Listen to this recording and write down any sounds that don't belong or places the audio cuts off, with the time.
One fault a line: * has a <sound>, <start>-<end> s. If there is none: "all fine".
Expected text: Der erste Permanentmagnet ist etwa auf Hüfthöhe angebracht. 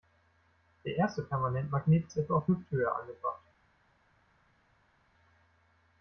all fine